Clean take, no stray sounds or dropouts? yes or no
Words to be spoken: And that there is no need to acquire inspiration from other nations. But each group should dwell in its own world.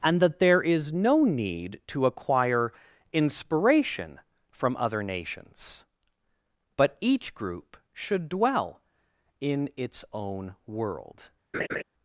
no